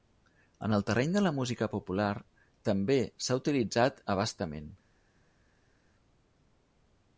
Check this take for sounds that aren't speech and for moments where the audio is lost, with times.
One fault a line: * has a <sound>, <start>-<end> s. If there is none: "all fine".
all fine